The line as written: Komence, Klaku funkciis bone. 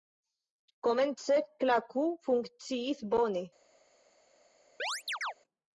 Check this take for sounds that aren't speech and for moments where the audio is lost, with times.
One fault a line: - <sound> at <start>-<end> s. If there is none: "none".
- chirp at 4.8-5.3 s